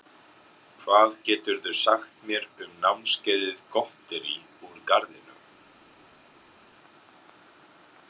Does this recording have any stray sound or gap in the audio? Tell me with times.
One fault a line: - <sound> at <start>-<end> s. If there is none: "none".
none